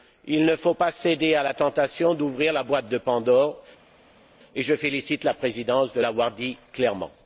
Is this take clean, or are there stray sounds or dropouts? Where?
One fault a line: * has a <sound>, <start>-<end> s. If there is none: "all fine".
all fine